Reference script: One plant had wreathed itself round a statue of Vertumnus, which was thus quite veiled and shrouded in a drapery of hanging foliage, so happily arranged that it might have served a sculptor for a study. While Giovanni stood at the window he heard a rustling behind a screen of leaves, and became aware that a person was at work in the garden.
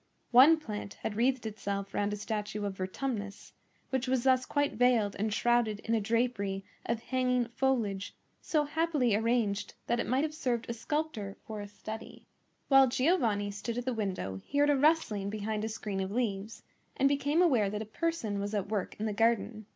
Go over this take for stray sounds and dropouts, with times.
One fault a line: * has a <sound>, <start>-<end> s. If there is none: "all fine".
all fine